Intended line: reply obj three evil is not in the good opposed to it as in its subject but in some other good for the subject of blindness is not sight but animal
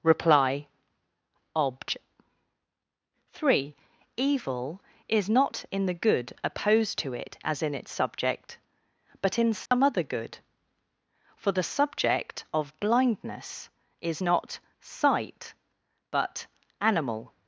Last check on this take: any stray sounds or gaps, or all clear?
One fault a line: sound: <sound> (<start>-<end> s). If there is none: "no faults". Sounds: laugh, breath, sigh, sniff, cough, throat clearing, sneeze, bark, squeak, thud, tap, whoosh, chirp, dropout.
sound: dropout (9.7-9.7 s)